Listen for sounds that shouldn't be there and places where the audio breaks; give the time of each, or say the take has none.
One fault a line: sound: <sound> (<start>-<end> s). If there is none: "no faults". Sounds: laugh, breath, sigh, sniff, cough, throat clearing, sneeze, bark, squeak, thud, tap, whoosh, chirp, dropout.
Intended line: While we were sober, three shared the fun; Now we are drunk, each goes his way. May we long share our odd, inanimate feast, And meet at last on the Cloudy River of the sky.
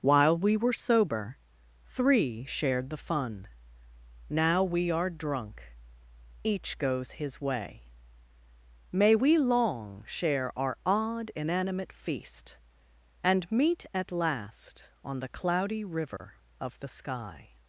sound: dropout (16.2-16.2 s)